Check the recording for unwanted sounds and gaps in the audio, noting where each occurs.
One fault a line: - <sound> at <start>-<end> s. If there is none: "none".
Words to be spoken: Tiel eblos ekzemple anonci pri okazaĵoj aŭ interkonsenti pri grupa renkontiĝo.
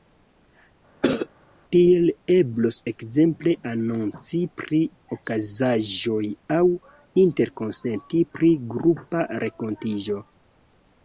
- cough at 1.0-1.3 s